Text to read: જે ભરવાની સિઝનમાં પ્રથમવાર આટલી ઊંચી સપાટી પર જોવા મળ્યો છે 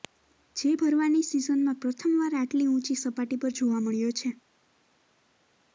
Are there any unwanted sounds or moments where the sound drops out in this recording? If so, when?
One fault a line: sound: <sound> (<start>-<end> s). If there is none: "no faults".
no faults